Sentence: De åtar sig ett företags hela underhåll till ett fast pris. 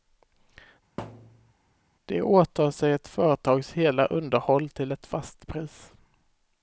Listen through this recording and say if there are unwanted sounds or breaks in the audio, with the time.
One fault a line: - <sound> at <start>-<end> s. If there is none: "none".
- thud at 1.0-1.5 s